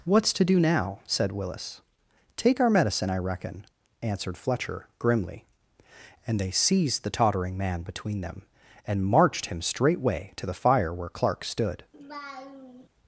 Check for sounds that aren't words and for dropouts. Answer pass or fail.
fail